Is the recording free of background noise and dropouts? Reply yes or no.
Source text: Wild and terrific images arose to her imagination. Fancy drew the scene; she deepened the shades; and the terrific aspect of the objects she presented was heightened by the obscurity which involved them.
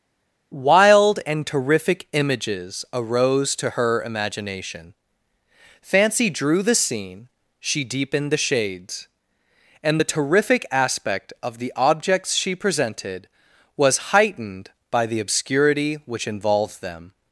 yes